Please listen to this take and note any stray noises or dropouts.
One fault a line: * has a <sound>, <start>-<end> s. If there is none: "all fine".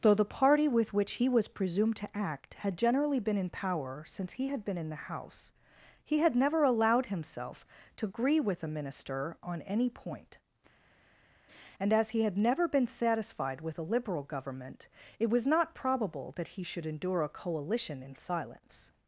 all fine